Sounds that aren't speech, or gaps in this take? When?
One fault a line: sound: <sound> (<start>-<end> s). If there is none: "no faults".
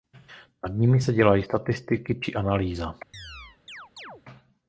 sound: chirp (3.1-4.2 s)